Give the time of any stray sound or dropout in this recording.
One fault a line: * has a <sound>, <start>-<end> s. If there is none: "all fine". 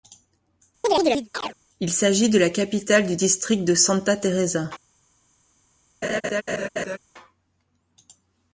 * has a chirp, 0.8-1.6 s
* has a laugh, 6.0-7.0 s